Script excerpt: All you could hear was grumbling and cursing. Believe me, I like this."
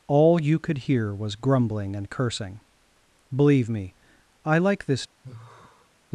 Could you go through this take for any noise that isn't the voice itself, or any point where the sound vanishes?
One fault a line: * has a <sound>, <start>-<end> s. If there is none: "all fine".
* has a sigh, 5.2-5.9 s